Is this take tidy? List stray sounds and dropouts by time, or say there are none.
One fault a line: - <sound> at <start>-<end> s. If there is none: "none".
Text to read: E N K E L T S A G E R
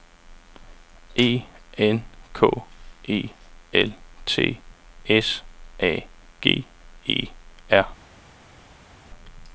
none